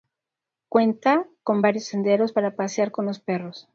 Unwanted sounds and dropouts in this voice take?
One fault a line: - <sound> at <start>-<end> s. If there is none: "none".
none